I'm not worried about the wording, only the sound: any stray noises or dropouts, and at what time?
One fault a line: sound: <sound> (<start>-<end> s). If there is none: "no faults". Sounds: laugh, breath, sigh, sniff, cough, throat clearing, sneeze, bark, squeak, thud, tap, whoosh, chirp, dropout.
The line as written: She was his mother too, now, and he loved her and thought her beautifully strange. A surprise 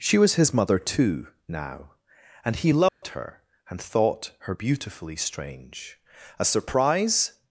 sound: dropout (2.9-3.0 s)